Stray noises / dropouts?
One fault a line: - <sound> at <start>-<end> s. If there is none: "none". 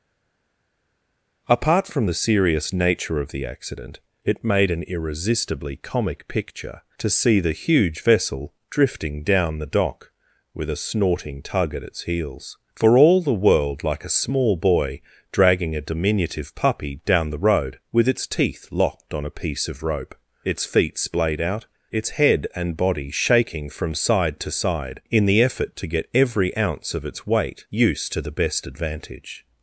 none